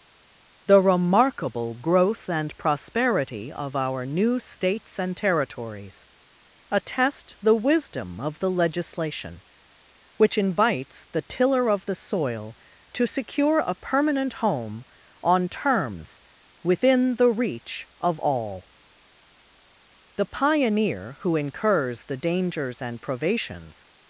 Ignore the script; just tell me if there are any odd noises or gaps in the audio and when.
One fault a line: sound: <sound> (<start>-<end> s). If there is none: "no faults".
no faults